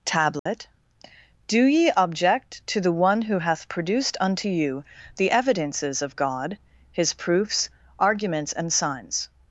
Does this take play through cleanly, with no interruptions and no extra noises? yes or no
no